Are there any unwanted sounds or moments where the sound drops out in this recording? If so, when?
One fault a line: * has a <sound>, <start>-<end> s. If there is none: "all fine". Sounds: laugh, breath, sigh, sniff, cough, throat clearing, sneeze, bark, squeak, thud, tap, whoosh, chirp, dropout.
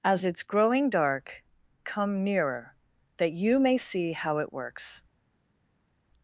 all fine